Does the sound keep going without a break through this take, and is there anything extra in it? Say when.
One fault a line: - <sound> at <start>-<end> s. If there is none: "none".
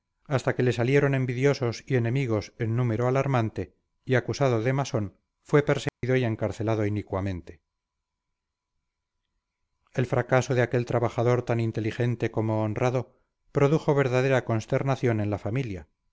- dropout at 5.9-6.0 s